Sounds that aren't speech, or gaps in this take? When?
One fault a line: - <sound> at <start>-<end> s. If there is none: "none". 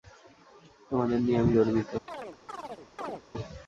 - chirp at 2.1-3.2 s